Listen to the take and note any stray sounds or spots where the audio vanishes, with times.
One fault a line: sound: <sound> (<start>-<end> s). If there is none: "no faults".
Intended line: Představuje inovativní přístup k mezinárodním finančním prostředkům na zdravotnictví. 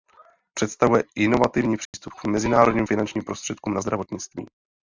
sound: dropout (1.9-1.9 s)